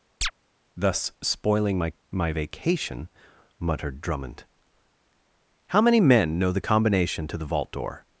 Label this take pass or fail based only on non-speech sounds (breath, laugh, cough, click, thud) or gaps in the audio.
fail